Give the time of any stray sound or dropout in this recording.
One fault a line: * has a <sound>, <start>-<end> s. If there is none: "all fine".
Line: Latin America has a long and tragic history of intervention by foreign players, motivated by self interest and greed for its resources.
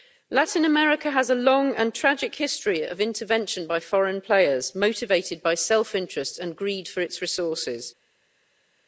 all fine